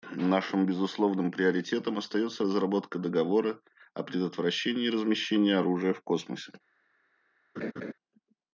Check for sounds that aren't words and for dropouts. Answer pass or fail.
fail